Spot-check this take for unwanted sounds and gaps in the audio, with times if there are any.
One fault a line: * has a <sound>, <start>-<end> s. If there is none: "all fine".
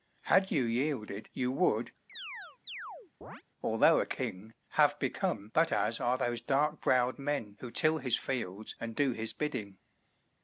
* has a chirp, 2.1-3.4 s